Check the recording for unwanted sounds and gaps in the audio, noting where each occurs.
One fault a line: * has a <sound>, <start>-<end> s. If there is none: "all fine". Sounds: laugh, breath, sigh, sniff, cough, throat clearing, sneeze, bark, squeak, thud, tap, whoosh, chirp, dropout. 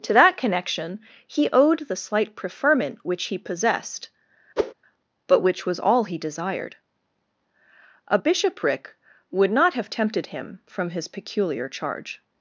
* has a whoosh, 4.6-4.7 s